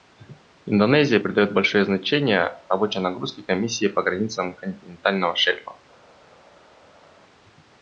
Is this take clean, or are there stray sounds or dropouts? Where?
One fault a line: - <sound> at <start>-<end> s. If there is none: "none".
none